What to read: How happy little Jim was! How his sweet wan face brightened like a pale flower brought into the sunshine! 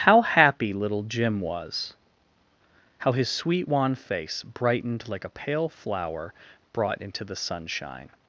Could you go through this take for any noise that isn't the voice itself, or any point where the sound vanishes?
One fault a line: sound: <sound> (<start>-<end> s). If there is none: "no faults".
no faults